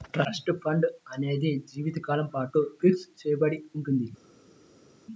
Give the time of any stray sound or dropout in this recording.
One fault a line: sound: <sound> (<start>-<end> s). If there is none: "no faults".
no faults